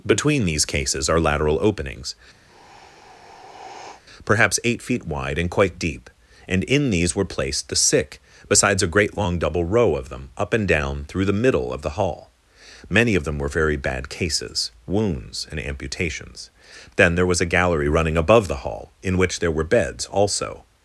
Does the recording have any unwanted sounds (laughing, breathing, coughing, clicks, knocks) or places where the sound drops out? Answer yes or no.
yes